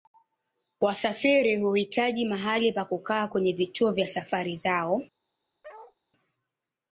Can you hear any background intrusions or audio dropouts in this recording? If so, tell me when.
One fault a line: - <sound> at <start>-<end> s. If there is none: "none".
- bark at 5.6-6.0 s